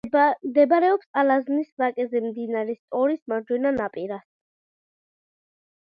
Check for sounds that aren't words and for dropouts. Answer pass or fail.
pass